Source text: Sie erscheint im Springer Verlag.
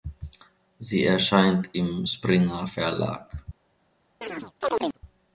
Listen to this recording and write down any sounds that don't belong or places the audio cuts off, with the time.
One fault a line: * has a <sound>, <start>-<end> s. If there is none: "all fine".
* has a chirp, 4.2-5.0 s